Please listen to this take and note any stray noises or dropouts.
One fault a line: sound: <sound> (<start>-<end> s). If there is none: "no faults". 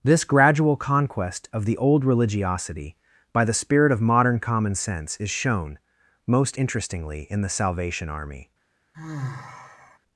sound: sigh (8.9-10.0 s)